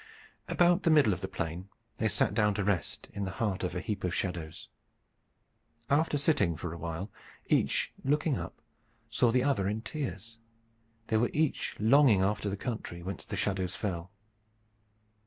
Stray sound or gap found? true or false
false